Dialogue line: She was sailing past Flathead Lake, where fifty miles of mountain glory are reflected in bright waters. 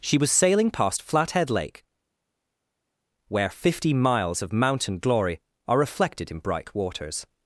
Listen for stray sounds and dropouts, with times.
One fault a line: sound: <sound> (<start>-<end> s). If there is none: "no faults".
no faults